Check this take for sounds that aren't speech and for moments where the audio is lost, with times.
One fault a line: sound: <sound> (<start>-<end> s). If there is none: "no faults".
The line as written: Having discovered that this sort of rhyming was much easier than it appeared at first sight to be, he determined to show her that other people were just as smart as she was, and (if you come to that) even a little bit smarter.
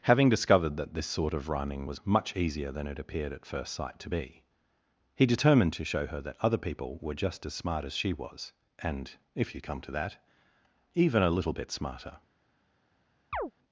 sound: chirp (13.3-13.5 s)